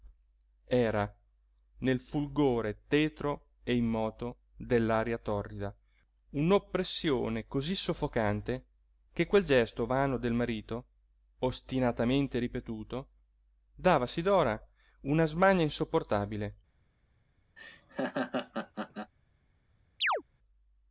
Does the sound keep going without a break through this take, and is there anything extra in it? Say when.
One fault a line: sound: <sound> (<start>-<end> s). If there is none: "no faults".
sound: laugh (17.6-19.1 s)
sound: chirp (20.0-20.2 s)